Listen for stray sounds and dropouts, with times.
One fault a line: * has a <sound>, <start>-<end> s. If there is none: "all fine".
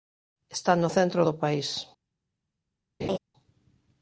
* has a laugh, 3.0-3.2 s